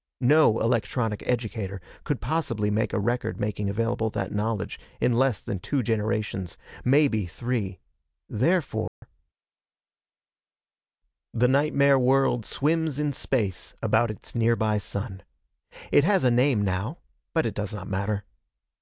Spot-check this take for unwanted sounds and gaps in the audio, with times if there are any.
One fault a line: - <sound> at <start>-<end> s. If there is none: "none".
- dropout at 8.9-9.0 s